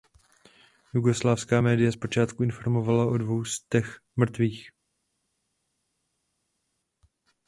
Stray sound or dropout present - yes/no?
no